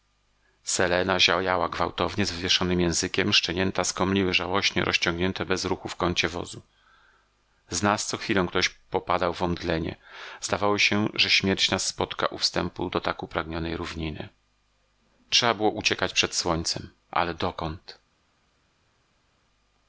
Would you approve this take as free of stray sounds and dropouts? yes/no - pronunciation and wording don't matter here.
yes